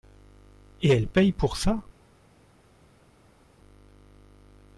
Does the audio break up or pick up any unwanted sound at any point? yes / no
no